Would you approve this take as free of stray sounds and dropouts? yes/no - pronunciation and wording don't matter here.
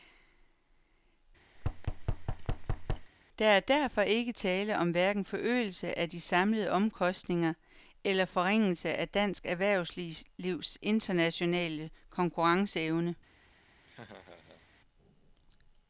no